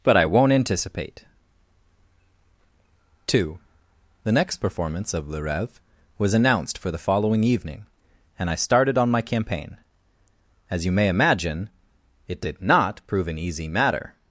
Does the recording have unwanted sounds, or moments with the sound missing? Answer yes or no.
no